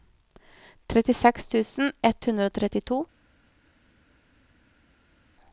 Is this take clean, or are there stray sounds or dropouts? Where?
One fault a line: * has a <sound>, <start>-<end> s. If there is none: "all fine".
all fine